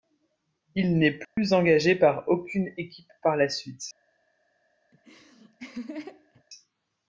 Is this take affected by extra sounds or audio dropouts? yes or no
yes